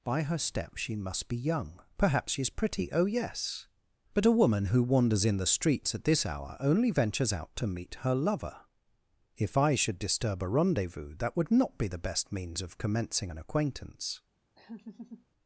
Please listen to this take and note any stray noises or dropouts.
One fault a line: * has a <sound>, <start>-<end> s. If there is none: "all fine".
* has a laugh, 14.6-15.3 s